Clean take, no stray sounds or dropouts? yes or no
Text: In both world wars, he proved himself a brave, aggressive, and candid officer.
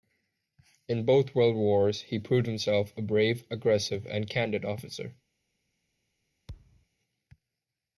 no